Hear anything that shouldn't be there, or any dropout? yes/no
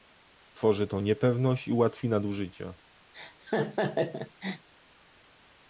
yes